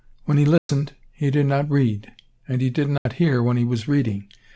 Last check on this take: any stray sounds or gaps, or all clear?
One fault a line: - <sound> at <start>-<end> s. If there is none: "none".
- dropout at 0.6-0.7 s
- dropout at 3.0-3.1 s